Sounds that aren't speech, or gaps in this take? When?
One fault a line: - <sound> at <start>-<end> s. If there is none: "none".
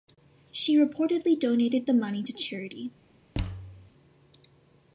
- thud at 3.3-3.9 s